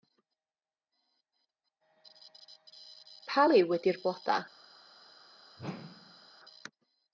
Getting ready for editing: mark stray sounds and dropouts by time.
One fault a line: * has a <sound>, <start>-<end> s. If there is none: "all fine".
* has a whoosh, 5.6-6.3 s